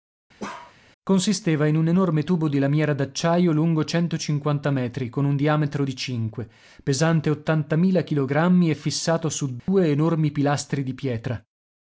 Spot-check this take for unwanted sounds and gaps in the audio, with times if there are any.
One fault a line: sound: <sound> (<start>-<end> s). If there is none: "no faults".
sound: bark (0.4-0.8 s)
sound: dropout (9.6-9.7 s)